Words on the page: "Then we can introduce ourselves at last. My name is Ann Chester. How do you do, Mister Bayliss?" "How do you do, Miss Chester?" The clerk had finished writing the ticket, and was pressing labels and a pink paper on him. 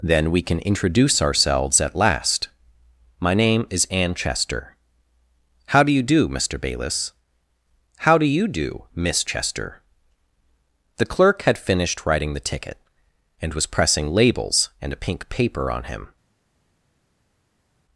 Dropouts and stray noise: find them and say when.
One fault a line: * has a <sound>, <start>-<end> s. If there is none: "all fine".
all fine